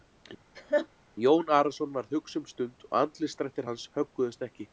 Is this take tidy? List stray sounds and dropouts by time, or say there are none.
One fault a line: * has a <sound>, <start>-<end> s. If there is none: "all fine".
* has a laugh, 0.5-0.9 s